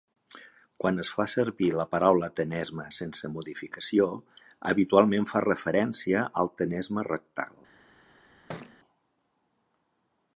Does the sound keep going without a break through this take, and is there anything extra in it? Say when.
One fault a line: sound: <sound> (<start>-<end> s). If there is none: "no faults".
sound: thud (8.5-8.8 s)